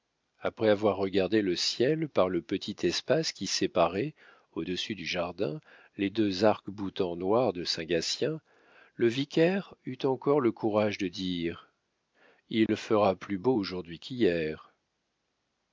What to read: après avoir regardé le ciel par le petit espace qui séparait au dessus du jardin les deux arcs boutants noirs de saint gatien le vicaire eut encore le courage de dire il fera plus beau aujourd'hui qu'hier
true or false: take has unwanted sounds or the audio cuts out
true